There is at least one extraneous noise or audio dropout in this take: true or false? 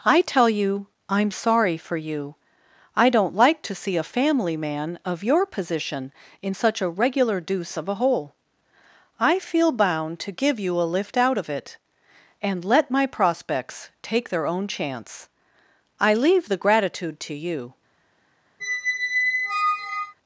true